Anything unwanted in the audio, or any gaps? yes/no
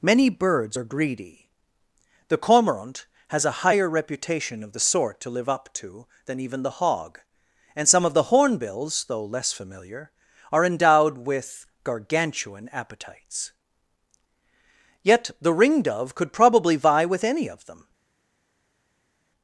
no